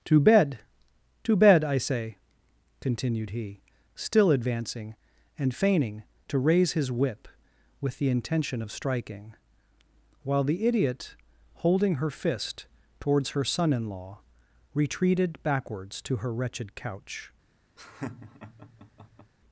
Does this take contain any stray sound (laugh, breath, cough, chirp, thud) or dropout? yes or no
yes